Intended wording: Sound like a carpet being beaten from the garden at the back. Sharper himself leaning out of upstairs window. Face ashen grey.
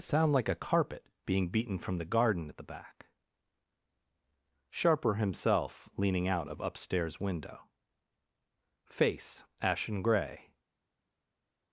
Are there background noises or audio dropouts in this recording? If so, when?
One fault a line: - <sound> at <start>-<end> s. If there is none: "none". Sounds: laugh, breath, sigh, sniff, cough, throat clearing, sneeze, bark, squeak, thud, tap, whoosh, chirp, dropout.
none